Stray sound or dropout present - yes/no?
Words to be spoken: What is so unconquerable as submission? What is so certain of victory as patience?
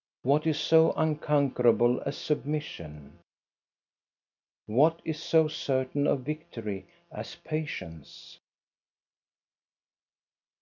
no